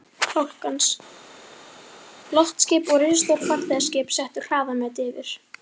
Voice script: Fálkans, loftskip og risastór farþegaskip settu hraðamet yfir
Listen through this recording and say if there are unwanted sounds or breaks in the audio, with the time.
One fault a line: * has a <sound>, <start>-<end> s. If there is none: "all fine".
all fine